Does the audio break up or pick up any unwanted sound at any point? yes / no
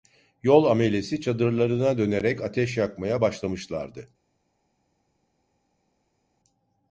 no